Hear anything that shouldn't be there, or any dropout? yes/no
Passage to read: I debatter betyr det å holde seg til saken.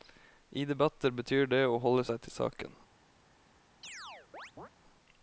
yes